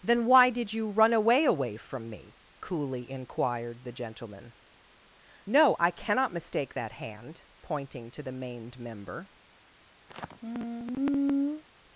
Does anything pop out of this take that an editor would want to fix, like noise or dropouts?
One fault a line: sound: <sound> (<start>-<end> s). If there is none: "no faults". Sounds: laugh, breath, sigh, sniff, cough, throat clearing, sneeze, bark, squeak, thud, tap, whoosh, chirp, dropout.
sound: sigh (10.1-11.6 s)